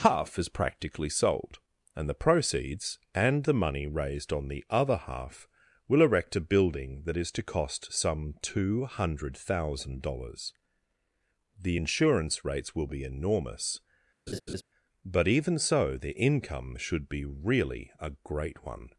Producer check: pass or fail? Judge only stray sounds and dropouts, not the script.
fail